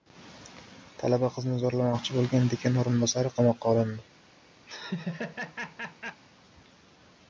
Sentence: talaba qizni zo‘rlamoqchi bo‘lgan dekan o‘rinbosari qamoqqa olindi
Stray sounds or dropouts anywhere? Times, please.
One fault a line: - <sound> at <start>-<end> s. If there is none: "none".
- laugh at 4.7-6.2 s